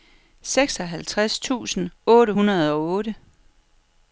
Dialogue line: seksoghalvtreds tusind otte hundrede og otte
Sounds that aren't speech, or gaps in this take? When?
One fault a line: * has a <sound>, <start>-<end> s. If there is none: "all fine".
all fine